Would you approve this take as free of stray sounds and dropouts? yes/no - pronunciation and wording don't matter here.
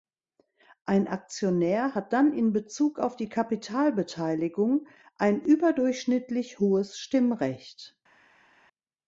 yes